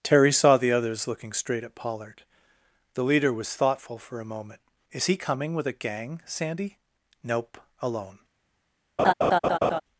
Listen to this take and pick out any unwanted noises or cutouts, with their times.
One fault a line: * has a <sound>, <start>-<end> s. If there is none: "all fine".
* has a laugh, 9.0-9.8 s